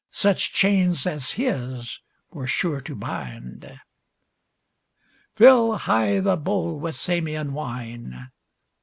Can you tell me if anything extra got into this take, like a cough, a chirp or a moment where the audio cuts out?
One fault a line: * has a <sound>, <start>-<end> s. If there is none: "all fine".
all fine